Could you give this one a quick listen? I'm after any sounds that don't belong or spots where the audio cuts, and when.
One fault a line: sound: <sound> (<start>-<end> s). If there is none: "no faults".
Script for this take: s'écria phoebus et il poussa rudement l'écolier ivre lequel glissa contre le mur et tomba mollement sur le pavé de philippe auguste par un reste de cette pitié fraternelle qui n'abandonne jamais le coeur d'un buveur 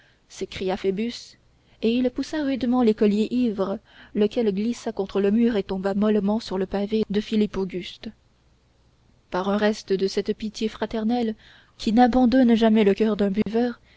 sound: dropout (13.4-13.5 s)